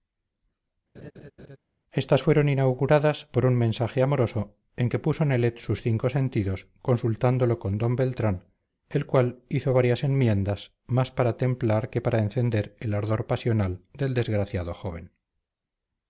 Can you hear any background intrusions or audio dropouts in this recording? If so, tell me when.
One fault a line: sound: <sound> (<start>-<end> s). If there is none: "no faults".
sound: laugh (0.9-1.6 s)